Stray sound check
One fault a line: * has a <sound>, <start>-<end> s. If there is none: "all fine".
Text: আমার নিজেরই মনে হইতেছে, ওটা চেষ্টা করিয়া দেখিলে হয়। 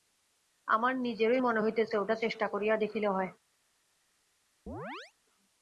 * has a chirp, 4.7-5.1 s